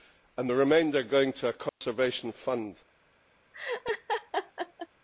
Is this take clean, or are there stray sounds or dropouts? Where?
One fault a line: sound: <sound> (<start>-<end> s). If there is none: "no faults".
sound: dropout (1.7-1.8 s)
sound: laugh (3.5-4.9 s)